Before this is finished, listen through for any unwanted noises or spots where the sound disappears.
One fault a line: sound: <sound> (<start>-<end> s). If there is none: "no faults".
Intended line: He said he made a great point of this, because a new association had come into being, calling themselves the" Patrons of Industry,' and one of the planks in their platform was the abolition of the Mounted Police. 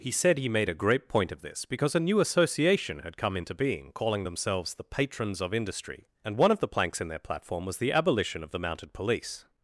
no faults